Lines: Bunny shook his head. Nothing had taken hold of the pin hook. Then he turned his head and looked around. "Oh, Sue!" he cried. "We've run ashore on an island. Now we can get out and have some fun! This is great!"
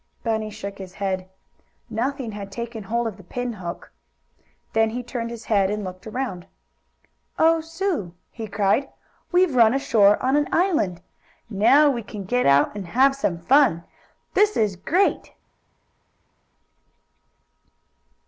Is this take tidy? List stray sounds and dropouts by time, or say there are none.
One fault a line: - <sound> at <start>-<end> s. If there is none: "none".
none